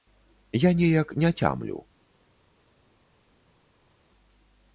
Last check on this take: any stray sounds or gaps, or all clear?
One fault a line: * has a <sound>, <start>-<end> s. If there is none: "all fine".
all fine